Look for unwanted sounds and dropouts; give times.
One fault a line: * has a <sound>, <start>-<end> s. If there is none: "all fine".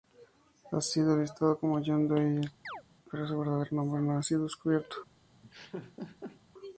* has a chirp, 2.6-2.8 s
* has a laugh, 5.4-6.4 s